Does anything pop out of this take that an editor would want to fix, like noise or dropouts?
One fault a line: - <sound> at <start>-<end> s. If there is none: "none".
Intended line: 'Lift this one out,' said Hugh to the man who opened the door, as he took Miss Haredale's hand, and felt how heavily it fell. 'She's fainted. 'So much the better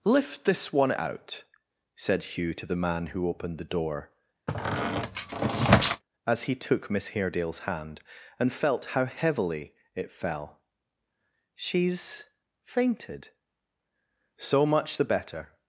- squeak at 4.5-6.0 s